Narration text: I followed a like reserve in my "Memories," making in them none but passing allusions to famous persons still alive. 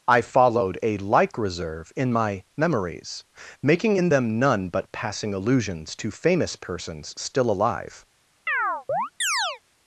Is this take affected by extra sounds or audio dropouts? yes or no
yes